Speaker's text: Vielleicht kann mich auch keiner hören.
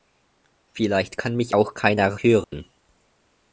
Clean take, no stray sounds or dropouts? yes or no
no